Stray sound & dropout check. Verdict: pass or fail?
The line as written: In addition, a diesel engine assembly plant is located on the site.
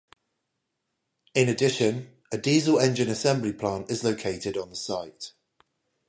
pass